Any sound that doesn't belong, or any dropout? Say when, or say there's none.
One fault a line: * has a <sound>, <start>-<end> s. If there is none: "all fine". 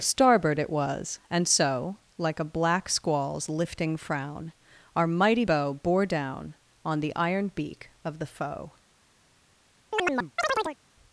* has a chirp, 9.9-10.8 s